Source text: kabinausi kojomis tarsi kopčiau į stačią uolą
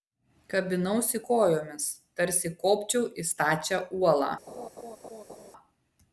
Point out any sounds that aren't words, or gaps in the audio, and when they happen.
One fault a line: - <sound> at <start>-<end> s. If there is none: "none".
- laugh at 4.5-5.5 s